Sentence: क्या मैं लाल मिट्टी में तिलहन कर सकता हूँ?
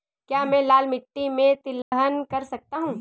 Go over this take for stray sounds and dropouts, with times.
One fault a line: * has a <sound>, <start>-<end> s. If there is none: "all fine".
* has a dropout, 1.8-1.9 s